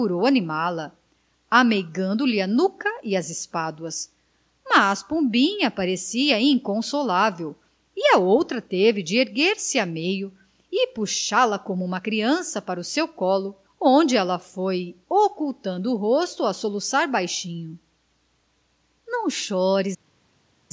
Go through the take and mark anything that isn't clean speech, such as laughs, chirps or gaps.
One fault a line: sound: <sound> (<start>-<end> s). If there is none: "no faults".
no faults